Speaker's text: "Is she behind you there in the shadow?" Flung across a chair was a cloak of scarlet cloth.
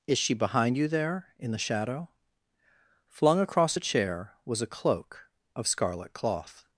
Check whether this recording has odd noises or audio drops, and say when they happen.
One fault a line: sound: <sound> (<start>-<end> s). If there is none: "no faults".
no faults